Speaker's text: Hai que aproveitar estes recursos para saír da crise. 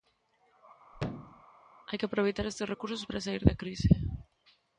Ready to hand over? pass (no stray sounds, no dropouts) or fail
fail